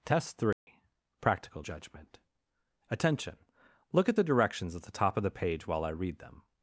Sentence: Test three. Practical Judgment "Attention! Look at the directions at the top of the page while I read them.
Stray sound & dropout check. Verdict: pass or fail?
fail